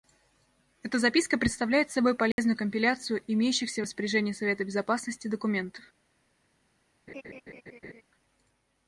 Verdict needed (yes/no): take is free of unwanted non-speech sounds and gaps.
no